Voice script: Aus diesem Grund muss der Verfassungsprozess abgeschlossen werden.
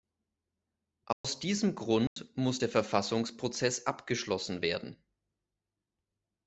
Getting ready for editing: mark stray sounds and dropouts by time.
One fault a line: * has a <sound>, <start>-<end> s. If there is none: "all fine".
* has a dropout, 1.1-1.2 s
* has a dropout, 2.1-2.2 s